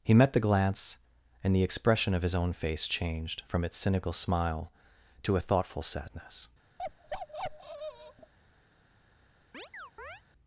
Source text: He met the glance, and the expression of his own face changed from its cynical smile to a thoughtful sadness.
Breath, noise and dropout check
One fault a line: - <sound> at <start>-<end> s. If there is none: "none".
- bark at 6.8-8.3 s
- chirp at 9.5-10.2 s